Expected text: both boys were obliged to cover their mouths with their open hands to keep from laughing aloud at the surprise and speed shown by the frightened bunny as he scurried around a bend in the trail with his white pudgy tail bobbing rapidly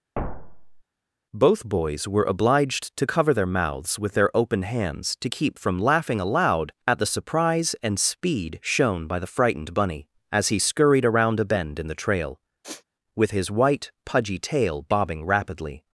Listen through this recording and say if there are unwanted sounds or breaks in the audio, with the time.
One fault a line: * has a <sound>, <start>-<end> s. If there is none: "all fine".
* has a thud, 0.2-0.8 s
* has a sniff, 12.6-12.8 s